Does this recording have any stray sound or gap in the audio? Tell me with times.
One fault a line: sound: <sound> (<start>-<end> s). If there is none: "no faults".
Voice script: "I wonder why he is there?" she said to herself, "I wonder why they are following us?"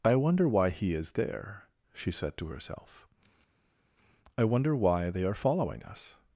no faults